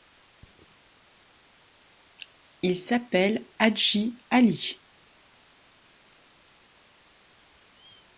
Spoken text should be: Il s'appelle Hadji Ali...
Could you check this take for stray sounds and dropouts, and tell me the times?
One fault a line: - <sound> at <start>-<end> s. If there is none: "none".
none